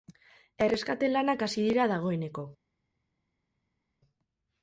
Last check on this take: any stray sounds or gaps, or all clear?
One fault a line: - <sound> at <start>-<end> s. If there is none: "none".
none